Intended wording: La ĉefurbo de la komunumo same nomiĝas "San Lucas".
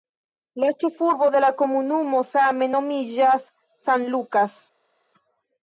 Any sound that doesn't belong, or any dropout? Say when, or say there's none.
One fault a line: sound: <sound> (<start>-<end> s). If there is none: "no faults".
no faults